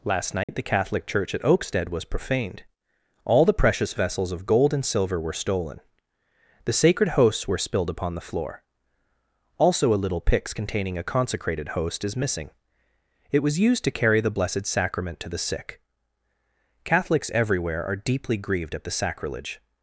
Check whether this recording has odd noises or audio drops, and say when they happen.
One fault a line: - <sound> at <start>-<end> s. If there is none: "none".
- dropout at 0.4-0.5 s